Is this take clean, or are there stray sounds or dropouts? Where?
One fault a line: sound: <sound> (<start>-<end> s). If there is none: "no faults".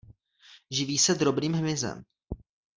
no faults